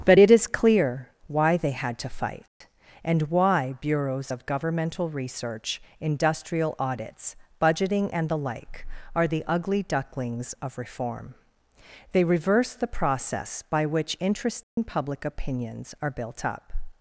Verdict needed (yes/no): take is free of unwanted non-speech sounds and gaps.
no